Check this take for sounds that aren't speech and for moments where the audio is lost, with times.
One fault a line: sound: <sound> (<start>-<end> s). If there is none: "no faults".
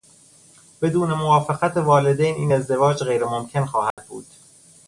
sound: dropout (3.9-4.0 s)